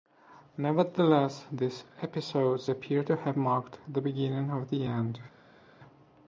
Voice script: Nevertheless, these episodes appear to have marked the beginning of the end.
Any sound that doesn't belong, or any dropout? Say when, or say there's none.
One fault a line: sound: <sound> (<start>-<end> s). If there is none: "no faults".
no faults